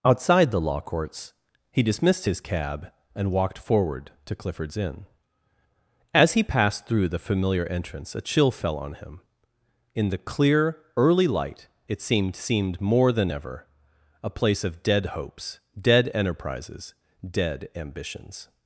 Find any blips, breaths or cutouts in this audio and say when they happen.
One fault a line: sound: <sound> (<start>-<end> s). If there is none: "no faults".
no faults